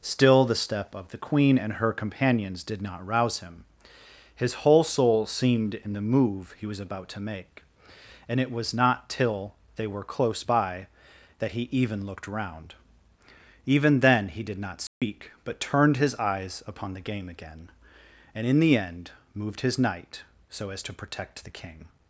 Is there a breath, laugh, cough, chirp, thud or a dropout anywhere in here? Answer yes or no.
yes